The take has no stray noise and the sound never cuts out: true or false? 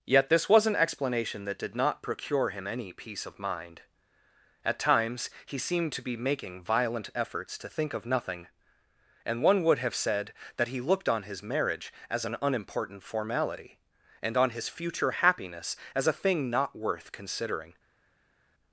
true